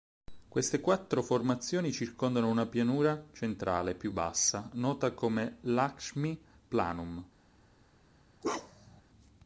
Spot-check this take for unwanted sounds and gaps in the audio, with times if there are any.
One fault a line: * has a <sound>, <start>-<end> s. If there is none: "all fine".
* has a bark, 8.4-9.0 s